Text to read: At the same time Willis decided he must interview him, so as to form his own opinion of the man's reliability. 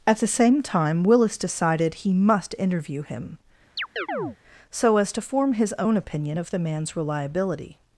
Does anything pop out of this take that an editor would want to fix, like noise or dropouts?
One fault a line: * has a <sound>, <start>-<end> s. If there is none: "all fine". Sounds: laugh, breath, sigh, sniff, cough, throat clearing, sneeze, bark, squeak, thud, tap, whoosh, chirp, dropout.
* has a chirp, 3.8-4.4 s